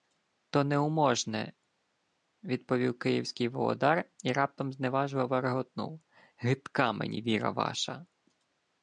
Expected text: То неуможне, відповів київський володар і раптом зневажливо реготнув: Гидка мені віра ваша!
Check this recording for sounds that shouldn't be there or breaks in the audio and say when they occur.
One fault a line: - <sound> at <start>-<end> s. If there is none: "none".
none